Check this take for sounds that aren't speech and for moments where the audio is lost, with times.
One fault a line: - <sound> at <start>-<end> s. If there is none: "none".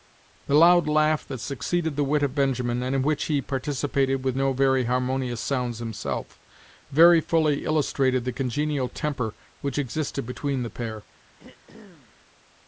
- throat clearing at 11.4-12.1 s